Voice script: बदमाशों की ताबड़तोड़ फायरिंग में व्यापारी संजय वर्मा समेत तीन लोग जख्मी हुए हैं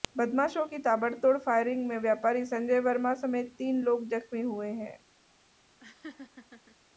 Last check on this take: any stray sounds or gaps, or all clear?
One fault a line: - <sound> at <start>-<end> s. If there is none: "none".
- laugh at 5.8-6.8 s